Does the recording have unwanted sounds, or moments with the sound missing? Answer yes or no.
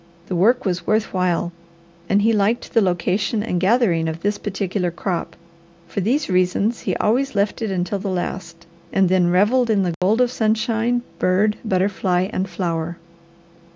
yes